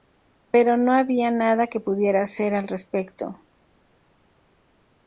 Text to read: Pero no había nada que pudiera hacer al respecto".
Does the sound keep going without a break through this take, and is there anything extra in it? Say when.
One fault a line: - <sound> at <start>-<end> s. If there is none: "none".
none